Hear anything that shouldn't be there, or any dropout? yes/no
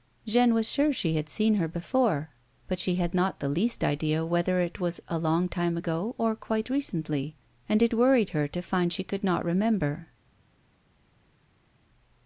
no